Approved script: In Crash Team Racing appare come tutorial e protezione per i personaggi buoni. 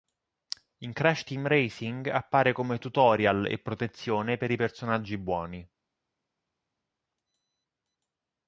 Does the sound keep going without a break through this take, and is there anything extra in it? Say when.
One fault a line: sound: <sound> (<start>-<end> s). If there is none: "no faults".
no faults